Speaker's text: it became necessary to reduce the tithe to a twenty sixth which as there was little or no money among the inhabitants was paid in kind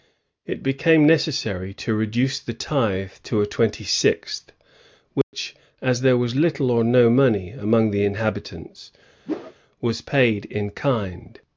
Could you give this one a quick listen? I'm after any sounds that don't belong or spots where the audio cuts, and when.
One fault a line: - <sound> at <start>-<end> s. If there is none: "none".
- dropout at 5.2-5.3 s
- whoosh at 9.3-9.5 s